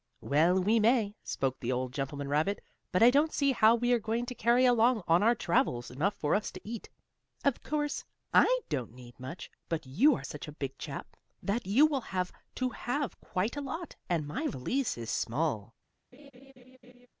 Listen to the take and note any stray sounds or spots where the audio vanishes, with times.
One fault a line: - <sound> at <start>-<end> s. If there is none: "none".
- laugh at 16.1-17.1 s